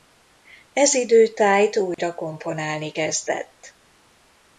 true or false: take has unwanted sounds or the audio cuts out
true